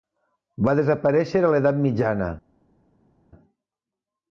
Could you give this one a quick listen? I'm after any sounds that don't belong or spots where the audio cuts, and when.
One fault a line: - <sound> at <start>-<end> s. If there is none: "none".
none